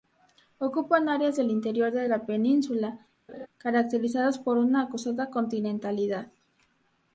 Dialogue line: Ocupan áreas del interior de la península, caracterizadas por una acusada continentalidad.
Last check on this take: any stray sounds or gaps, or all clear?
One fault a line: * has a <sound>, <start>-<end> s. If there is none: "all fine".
* has a laugh, 3.3-3.5 s